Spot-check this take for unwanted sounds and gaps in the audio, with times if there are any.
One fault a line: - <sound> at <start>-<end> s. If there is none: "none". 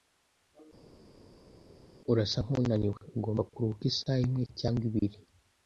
none